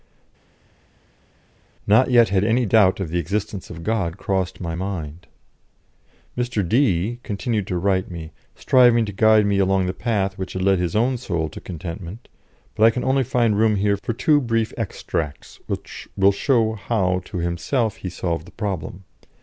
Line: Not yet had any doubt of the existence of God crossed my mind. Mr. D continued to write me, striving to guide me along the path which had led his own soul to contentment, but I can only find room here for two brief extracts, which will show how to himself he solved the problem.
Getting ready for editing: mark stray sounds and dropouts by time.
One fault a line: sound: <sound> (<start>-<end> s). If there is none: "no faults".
no faults